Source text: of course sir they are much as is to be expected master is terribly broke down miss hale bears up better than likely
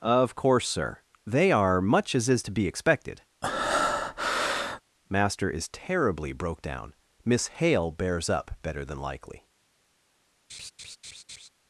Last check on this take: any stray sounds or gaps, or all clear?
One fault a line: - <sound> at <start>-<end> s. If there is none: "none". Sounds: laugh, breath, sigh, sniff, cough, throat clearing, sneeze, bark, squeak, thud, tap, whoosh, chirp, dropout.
- breath at 3.4-4.8 s
- laugh at 10.5-11.5 s